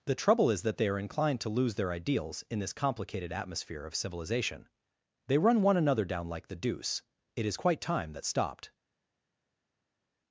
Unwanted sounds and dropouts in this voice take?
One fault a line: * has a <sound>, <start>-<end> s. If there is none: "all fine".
all fine